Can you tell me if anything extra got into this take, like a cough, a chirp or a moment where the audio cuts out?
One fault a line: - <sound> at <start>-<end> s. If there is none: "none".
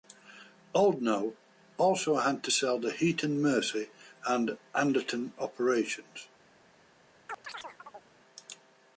- chirp at 7.3-8.1 s